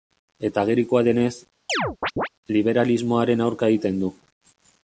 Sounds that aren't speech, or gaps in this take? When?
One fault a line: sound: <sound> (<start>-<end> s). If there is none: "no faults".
sound: chirp (1.7-2.3 s)